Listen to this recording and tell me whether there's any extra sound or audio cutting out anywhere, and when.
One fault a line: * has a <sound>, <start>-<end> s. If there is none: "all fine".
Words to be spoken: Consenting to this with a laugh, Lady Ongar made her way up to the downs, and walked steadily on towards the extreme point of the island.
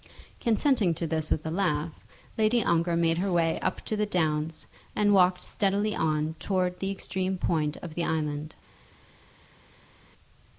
all fine